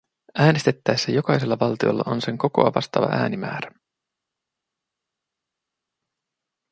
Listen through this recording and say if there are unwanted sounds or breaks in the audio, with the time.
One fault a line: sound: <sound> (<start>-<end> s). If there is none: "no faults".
no faults